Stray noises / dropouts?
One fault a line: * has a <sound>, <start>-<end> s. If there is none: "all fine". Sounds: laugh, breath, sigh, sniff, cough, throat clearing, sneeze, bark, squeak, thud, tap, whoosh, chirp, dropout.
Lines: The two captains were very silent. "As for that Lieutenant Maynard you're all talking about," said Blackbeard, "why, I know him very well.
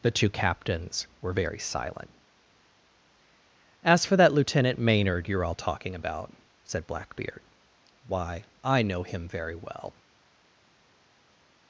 all fine